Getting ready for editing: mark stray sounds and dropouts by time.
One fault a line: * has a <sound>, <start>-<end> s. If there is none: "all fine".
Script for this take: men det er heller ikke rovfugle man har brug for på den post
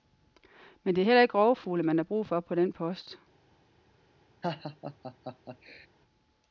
* has a laugh, 4.4-5.9 s